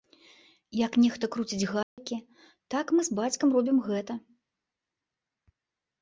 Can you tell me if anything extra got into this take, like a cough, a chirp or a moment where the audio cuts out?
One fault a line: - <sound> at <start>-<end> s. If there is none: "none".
- dropout at 1.8-2.0 s